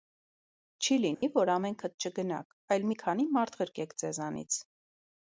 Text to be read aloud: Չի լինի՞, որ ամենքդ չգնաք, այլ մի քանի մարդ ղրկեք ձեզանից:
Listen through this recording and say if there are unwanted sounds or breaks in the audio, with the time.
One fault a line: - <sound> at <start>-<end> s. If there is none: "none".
- dropout at 1.1-1.2 s